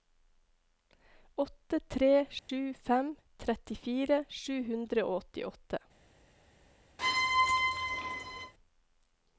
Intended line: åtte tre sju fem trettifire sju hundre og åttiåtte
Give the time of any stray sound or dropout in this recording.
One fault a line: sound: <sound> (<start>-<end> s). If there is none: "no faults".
sound: dropout (2.4-2.5 s)
sound: squeak (7.0-8.5 s)